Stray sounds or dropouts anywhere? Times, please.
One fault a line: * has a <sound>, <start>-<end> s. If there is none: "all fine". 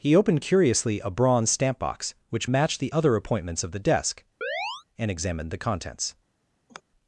* has a chirp, 4.4-4.8 s
* has a sigh, 6.7-6.8 s